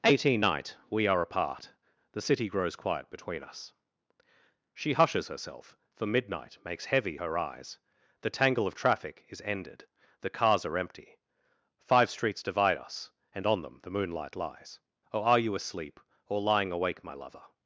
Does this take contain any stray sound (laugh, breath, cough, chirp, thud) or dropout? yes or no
no